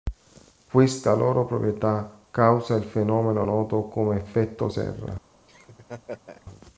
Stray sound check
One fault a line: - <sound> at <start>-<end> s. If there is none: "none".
- laugh at 5.5-6.5 s